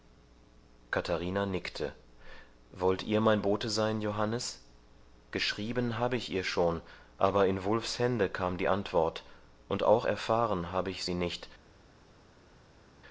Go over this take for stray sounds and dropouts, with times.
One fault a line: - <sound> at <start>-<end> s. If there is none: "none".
none